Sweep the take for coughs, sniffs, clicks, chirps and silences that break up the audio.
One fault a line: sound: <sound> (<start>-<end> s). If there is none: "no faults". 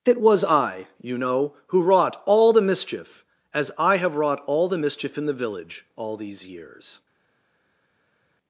no faults